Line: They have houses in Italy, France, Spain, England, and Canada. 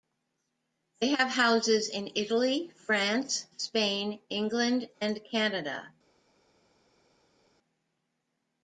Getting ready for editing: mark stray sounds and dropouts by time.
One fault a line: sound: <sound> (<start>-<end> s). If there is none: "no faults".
no faults